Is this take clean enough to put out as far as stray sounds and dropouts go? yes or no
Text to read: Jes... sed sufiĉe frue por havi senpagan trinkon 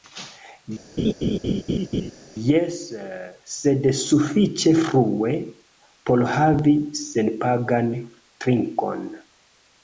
no